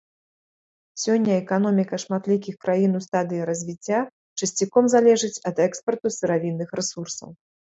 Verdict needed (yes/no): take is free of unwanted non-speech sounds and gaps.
yes